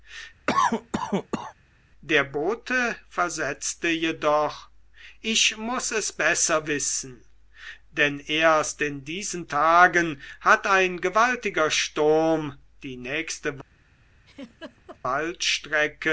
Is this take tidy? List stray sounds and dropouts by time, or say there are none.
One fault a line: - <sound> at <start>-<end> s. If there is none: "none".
- cough at 0.5-1.5 s
- laugh at 14.3-15.0 s